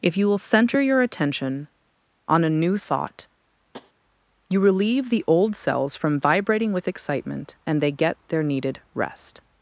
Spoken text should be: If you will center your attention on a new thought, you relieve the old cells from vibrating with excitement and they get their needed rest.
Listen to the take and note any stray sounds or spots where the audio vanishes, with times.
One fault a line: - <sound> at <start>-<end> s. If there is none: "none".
- tap at 3.7-3.9 s